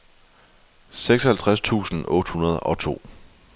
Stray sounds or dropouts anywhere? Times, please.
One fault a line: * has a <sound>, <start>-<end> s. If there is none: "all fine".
all fine